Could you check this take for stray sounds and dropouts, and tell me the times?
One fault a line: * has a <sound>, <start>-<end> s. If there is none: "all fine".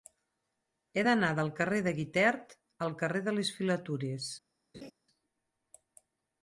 * has a laugh, 4.7-4.9 s